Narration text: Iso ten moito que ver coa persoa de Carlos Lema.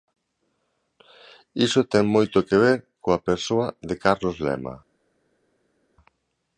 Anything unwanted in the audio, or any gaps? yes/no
no